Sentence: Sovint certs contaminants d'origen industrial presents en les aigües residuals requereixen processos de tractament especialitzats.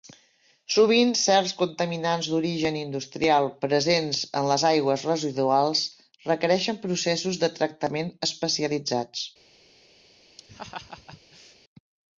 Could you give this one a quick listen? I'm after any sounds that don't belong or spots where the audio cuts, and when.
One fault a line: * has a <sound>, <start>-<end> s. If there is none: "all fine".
* has a laugh, 10.4-11.6 s